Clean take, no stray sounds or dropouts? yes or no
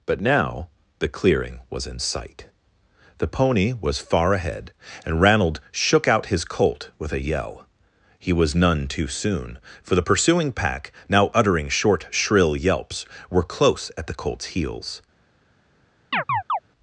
no